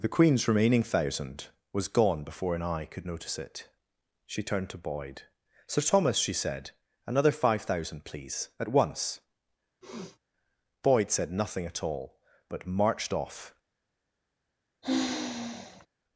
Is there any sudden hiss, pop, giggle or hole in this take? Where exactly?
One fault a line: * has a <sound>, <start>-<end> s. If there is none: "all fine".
* has a sniff, 9.8-10.2 s
* has a sigh, 14.8-15.9 s